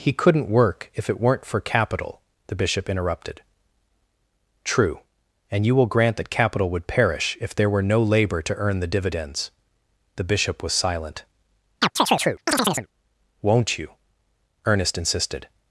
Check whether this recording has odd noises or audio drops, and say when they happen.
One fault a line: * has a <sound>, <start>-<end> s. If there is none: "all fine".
* has a chirp, 11.8-12.9 s